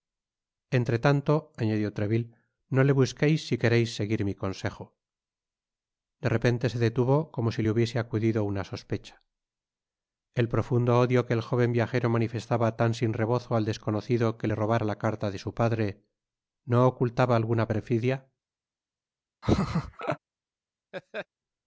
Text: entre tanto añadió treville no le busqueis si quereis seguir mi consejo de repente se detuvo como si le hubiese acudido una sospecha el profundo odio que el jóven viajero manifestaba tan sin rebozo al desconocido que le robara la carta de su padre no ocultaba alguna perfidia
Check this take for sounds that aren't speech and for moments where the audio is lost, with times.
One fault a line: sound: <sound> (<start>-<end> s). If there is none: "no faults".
sound: laugh (19.4-20.2 s)
sound: laugh (20.9-21.3 s)